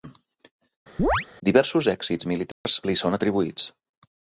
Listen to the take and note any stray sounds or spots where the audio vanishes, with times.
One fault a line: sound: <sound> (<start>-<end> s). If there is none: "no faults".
sound: chirp (1.0-1.3 s)
sound: dropout (2.5-2.7 s)